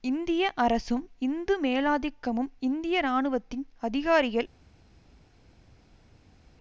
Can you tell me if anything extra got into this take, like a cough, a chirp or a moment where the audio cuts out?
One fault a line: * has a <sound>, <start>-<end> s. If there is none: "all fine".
all fine